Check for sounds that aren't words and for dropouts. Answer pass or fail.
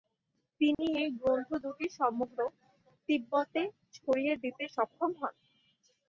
fail